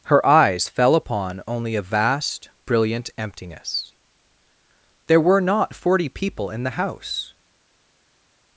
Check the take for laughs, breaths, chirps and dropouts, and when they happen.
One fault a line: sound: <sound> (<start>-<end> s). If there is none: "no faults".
no faults